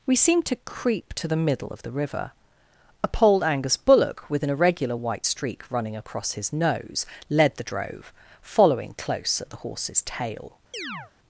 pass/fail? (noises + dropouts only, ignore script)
fail